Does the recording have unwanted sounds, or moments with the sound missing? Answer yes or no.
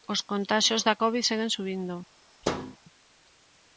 yes